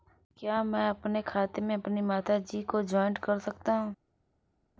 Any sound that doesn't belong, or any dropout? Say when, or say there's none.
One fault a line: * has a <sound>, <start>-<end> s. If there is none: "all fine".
all fine